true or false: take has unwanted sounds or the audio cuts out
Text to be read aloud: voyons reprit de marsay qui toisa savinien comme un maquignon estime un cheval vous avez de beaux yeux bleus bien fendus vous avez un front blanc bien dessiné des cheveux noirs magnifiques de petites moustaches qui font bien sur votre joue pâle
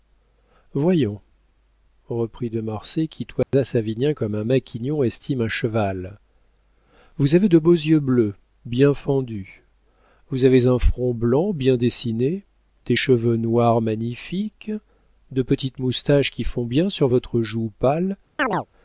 true